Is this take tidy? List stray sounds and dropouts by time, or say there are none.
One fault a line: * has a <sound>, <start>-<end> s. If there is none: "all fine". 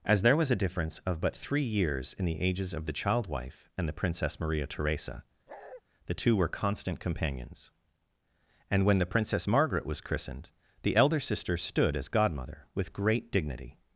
* has a bark, 5.5-5.8 s